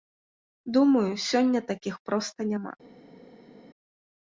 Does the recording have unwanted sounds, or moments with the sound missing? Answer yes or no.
no